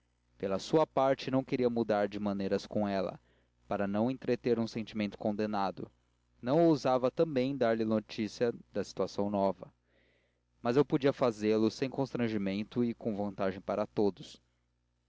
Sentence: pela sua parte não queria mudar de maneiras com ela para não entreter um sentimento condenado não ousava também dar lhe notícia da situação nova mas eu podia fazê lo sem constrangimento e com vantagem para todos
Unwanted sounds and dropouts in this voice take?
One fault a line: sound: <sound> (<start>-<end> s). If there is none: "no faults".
no faults